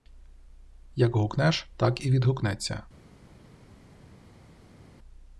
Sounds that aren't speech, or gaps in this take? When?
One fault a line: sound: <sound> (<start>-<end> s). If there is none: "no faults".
no faults